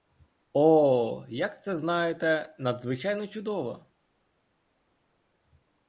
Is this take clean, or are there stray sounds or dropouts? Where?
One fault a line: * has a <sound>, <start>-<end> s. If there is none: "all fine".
all fine